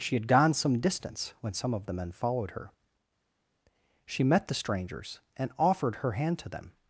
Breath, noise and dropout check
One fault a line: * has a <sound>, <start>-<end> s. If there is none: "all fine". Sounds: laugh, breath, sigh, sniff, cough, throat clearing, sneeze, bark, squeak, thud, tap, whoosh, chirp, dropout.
all fine